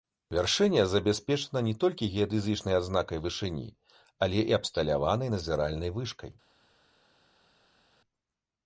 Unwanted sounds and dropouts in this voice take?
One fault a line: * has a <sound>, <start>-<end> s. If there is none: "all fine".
all fine